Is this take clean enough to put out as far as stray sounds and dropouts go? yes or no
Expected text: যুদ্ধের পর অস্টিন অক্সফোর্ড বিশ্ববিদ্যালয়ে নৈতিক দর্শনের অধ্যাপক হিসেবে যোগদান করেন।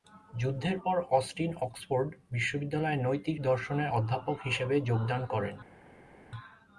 yes